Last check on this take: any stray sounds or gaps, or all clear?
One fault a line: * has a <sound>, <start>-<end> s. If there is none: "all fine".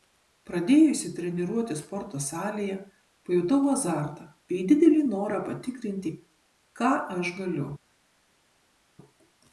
all fine